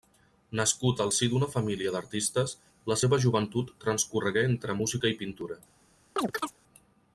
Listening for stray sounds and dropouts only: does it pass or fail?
fail